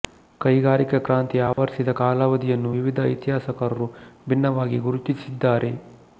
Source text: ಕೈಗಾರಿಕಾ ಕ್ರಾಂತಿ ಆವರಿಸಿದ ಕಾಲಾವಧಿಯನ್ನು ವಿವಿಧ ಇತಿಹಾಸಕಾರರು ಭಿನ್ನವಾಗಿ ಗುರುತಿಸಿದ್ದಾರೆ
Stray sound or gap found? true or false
true